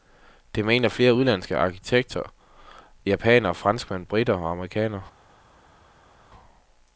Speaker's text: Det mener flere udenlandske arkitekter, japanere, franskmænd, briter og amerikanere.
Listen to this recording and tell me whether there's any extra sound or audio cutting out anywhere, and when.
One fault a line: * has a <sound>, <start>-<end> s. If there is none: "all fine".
all fine